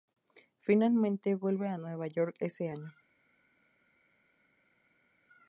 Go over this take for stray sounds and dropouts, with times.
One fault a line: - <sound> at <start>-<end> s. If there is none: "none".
none